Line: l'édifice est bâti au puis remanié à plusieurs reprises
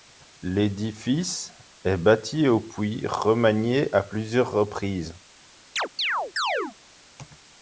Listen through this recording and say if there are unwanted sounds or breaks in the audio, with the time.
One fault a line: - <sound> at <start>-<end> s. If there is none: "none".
- chirp at 5.8-6.8 s